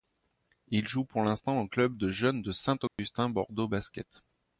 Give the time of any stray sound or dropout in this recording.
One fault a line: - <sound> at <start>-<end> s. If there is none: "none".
- dropout at 2.9-3.0 s